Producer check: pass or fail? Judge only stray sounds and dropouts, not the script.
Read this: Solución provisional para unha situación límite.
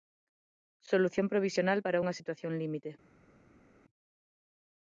pass